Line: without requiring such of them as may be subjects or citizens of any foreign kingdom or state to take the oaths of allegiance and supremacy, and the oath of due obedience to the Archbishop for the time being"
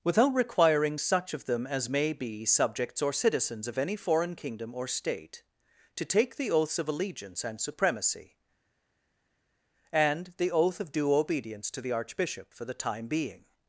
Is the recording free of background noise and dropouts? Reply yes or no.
yes